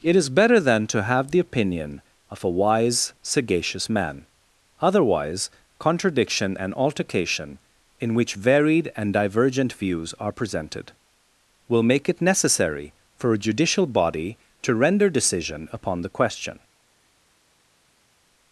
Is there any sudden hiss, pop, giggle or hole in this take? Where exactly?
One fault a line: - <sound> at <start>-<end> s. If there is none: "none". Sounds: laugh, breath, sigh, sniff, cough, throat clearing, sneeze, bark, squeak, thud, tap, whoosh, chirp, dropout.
none